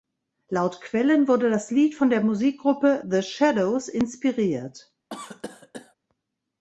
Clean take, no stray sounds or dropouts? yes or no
no